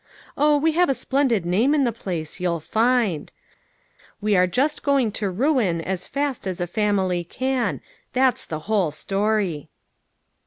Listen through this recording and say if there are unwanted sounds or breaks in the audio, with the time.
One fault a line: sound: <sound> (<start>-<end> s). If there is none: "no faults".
no faults